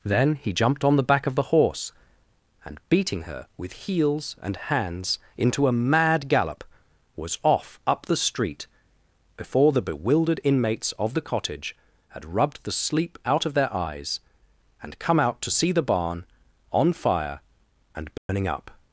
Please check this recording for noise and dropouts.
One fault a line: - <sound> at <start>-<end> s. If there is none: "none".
- dropout at 18.2-18.3 s